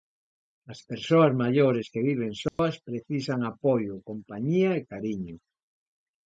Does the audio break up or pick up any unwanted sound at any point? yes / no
yes